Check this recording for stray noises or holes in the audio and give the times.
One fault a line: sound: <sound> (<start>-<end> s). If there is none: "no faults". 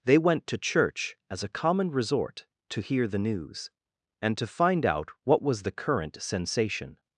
no faults